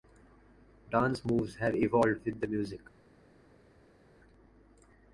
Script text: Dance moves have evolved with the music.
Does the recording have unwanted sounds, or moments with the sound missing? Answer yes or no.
no